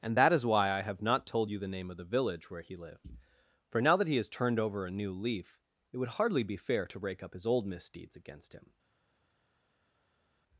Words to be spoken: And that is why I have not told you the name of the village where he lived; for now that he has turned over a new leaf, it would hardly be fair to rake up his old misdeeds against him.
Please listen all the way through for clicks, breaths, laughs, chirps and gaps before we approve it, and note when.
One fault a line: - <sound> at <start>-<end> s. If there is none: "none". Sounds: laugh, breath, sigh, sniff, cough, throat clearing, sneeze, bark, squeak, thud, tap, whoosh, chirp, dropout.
none